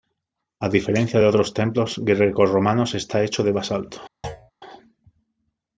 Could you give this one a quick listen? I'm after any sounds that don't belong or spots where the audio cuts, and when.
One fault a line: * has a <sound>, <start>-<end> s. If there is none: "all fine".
* has a thud, 4.2-4.5 s